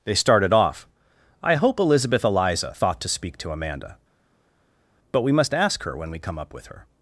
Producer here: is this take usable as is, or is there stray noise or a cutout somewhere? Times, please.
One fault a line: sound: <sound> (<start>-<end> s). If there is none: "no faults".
no faults